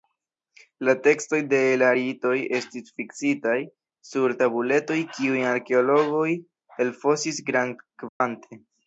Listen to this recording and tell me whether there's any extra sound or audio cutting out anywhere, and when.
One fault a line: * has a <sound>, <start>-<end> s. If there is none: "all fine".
* has a dropout, 8.1-8.2 s